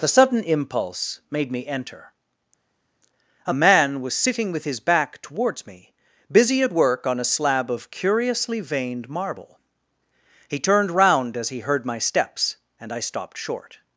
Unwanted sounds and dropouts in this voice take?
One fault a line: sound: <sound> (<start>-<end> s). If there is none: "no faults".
no faults